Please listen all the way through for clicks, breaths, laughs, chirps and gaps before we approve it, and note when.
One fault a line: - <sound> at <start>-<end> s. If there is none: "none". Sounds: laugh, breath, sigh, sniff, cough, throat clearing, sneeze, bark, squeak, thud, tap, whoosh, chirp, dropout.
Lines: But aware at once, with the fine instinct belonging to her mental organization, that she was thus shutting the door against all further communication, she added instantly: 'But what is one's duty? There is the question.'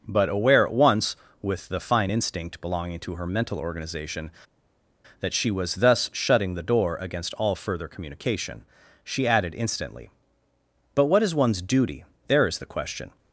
none